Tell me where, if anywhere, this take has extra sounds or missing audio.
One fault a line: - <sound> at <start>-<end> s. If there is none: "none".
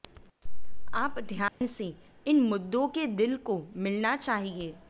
- dropout at 1.5-1.6 s